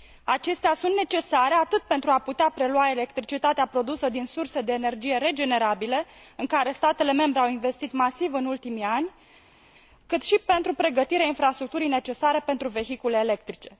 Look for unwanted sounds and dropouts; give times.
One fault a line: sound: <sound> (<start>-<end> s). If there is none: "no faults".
no faults